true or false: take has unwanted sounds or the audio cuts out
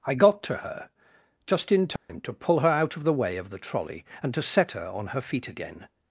true